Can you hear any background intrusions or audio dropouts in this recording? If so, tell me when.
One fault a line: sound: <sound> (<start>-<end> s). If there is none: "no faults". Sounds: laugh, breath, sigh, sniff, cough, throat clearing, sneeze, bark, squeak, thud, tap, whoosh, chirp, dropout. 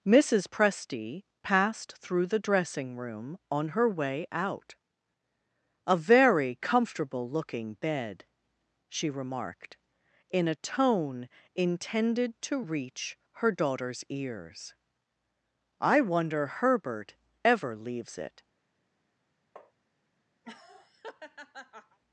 sound: tap (19.6-19.7 s)
sound: laugh (20.4-22.0 s)